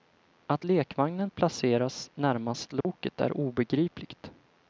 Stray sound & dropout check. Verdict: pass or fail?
fail